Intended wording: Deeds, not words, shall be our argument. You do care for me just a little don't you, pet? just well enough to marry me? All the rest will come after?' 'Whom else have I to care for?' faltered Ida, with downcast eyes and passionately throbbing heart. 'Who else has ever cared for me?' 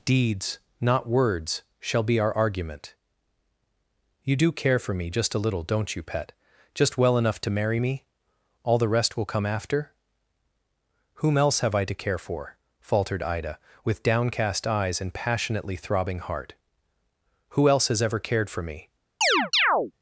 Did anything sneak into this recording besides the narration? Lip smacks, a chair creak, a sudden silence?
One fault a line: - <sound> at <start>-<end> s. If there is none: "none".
- chirp at 19.2-19.9 s